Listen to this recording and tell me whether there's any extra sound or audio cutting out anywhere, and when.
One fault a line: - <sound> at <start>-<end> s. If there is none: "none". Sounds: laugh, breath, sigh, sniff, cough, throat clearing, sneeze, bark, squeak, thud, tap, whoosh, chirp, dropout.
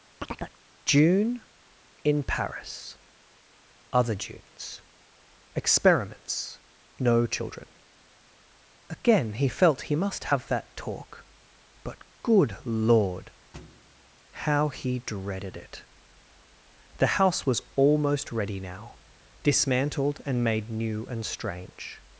- chirp at 0.2-0.6 s
- thud at 13.5-14.2 s